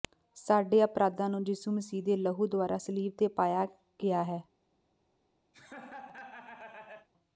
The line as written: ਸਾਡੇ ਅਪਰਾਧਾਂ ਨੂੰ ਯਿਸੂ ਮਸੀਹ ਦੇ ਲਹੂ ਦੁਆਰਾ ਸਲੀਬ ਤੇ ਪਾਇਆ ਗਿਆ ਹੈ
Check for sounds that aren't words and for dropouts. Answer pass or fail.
fail